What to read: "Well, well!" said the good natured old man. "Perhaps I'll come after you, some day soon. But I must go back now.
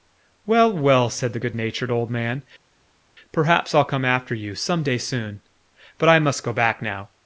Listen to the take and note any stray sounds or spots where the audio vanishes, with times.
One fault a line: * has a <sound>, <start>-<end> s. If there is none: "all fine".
all fine